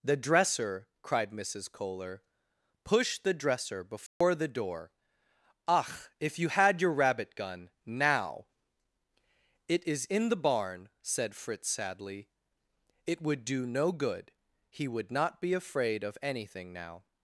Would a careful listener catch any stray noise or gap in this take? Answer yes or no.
yes